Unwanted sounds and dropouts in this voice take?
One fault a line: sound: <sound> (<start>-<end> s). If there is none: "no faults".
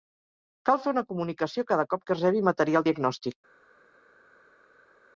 no faults